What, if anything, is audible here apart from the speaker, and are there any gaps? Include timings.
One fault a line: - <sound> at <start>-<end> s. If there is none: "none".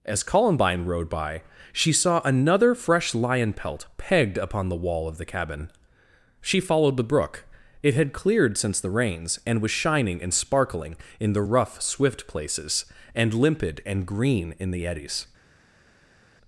none